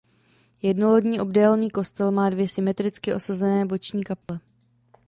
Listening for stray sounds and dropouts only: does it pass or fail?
fail